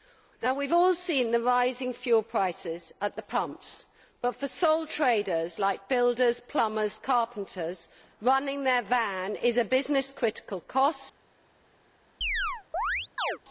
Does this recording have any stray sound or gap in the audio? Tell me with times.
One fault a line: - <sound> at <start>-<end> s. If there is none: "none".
- chirp at 12.2-13.4 s